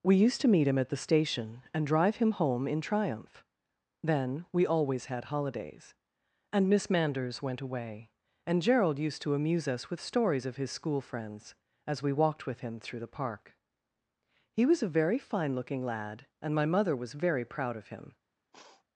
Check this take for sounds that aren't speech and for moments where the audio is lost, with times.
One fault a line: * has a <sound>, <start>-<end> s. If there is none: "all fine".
* has a sniff, 18.5-18.8 s